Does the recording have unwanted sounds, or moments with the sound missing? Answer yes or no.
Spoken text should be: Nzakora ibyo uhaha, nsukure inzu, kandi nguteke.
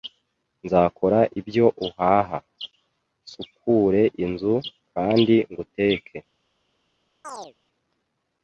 yes